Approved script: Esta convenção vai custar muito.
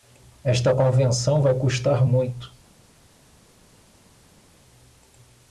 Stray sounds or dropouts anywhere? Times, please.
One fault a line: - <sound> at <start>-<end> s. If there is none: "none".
none